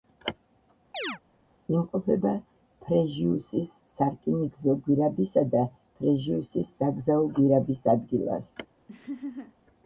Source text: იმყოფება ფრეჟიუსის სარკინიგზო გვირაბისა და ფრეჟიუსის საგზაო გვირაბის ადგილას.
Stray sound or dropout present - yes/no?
yes